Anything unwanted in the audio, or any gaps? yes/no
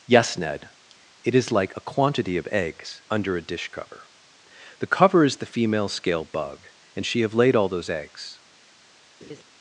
yes